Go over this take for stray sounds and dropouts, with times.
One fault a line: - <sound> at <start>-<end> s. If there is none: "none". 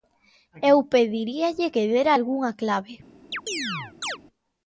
- chirp at 3.3-4.2 s